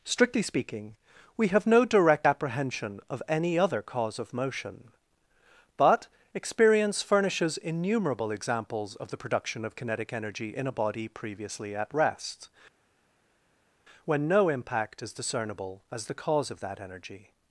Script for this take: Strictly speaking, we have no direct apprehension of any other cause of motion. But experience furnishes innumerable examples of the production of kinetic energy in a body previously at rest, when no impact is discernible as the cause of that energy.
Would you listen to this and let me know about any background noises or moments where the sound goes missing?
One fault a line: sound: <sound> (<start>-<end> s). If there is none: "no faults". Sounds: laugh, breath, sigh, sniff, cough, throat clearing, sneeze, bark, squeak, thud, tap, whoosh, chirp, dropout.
no faults